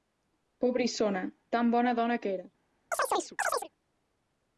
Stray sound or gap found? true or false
true